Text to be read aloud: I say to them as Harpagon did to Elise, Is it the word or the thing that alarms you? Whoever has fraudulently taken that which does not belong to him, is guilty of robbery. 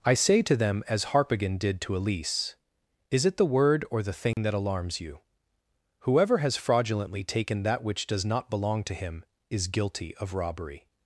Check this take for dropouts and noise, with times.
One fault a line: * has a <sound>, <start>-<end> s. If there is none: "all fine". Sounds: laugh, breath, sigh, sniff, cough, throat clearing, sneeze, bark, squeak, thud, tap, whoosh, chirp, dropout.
* has a dropout, 4.3-4.4 s